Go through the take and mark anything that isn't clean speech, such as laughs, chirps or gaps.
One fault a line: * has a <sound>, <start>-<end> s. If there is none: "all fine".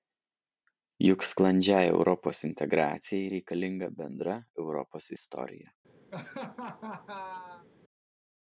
* has a laugh, 6.1-7.7 s